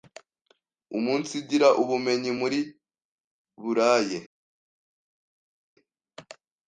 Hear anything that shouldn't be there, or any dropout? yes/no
no